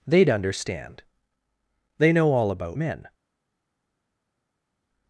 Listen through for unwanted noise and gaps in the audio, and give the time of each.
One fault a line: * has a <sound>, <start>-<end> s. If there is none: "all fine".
all fine